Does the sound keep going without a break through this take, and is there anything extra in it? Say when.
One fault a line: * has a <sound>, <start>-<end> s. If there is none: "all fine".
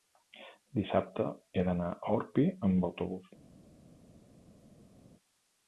all fine